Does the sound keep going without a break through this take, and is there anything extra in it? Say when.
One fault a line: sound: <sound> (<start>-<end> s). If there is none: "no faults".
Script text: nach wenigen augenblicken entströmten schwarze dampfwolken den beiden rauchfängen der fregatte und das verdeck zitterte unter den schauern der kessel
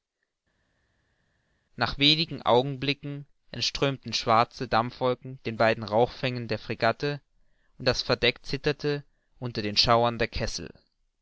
no faults